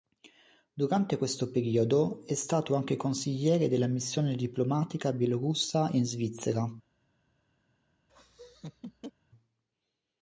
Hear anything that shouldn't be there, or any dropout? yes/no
yes